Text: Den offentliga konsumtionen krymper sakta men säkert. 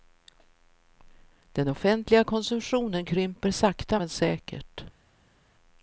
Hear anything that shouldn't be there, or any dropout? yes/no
no